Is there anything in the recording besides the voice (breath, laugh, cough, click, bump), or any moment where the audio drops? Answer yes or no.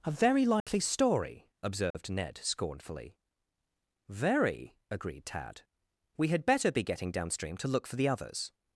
yes